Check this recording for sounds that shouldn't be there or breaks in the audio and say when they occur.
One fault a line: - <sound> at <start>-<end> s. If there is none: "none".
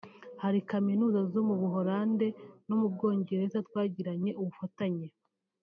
none